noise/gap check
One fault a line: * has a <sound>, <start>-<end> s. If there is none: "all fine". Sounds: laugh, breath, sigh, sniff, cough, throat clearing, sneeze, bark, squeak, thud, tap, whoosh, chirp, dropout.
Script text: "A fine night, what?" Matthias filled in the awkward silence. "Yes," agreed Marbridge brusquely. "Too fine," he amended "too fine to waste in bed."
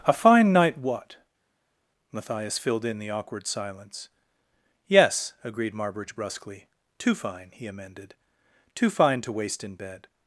all fine